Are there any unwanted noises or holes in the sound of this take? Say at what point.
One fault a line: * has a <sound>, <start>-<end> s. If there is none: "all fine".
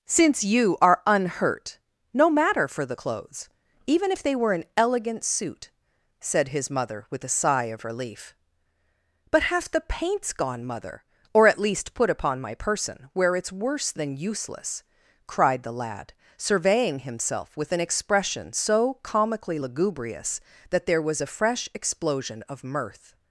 all fine